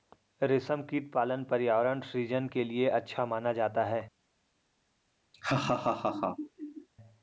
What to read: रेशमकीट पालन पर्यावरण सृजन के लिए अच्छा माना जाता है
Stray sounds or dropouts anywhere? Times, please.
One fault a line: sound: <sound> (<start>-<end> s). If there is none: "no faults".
sound: laugh (5.3-6.9 s)